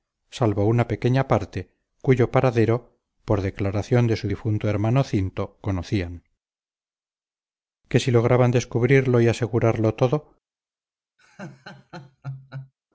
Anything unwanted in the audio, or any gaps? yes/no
yes